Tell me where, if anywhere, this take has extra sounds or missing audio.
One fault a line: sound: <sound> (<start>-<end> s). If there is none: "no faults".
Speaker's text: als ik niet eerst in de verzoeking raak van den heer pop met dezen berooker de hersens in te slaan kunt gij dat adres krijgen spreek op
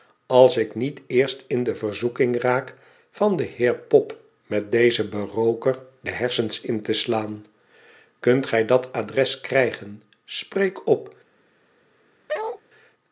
sound: bark (12.3-12.6 s)